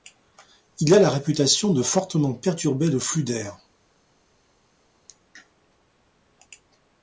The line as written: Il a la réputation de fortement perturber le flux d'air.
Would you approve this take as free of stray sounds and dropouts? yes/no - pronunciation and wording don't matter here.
yes